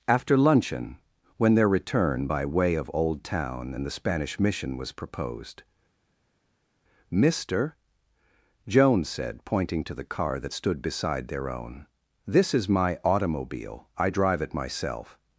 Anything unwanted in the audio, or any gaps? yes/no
no